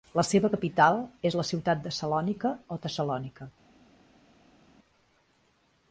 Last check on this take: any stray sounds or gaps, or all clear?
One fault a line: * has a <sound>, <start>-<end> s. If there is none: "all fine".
all fine